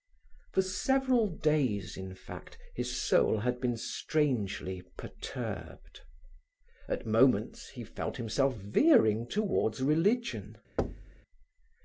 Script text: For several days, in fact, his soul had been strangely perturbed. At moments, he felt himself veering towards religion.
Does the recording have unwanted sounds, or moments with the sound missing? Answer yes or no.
yes